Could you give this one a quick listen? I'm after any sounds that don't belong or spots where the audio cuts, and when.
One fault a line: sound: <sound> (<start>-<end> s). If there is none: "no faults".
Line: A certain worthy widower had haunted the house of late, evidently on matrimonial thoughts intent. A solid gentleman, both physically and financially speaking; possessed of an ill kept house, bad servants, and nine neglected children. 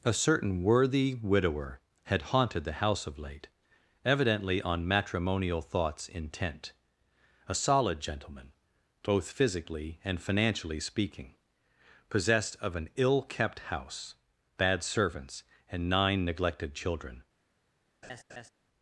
sound: laugh (18.0-18.5 s)